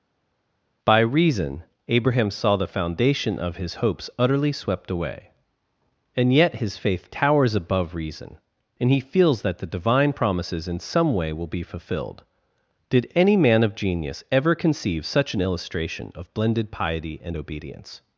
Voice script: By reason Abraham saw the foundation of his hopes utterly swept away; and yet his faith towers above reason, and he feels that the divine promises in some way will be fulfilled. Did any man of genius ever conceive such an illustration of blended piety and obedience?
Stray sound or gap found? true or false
false